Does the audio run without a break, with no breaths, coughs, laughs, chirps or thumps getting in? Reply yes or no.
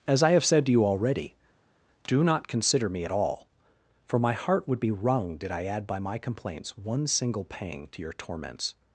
yes